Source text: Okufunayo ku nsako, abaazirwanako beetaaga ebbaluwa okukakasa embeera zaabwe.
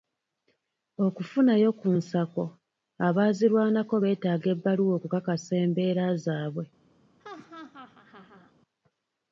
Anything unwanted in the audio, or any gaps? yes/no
yes